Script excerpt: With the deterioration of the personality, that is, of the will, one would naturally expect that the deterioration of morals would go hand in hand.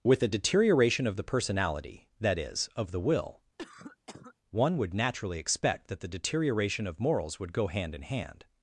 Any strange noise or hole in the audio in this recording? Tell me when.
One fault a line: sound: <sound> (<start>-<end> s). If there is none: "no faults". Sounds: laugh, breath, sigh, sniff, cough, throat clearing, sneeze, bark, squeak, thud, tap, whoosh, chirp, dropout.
sound: cough (3.6-4.3 s)